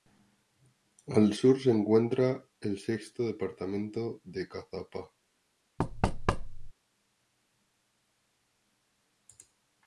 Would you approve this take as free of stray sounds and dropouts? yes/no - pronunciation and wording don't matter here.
no